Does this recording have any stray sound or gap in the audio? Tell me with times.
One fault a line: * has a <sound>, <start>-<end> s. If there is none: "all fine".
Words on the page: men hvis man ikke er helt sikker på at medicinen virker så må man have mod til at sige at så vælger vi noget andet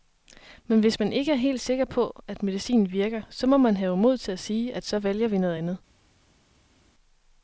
all fine